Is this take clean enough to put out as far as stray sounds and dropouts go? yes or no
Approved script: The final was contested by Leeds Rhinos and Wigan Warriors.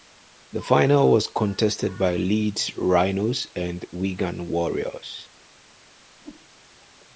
no